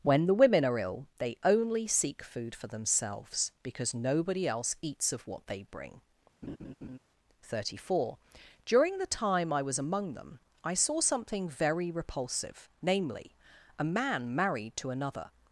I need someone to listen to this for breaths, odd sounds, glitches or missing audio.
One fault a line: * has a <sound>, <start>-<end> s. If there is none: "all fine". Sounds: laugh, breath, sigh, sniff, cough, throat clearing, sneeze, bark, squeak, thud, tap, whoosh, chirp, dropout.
* has a laugh, 6.4-7.0 s